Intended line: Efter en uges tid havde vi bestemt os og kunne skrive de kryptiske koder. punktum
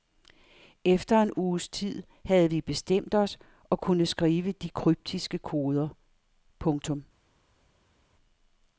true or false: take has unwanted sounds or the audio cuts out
false